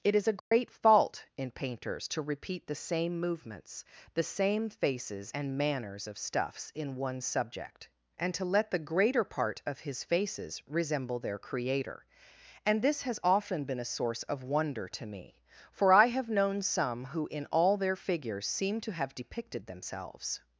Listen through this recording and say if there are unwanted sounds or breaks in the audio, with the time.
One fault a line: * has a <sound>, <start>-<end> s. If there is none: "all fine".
* has a dropout, 0.4-0.5 s